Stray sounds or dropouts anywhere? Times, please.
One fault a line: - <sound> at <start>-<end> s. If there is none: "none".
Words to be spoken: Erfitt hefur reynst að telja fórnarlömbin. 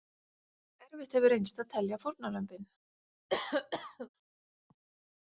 - cough at 3.3-4.1 s